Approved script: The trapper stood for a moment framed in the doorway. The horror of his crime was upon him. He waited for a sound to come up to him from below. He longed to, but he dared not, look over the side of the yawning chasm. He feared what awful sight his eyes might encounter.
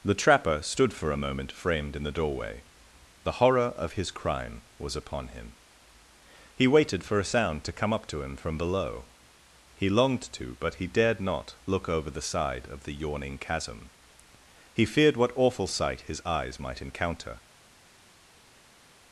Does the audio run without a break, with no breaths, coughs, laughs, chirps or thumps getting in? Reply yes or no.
yes